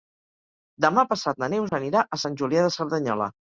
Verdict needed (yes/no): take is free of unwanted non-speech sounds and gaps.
no